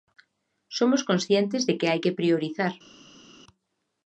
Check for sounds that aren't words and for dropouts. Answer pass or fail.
pass